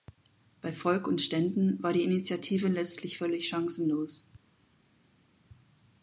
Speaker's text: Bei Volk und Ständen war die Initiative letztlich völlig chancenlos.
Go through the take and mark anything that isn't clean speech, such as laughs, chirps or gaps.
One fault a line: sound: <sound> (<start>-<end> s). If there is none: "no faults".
no faults